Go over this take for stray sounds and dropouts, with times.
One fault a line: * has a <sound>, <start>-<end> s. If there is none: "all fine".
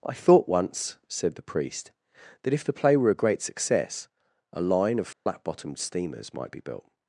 * has a dropout, 5.1-5.3 s